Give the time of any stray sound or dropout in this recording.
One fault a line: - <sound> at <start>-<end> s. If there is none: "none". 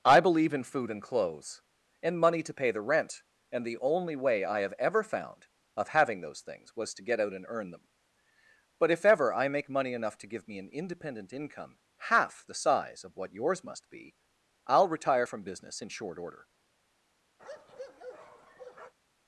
- bark at 17.4-18.9 s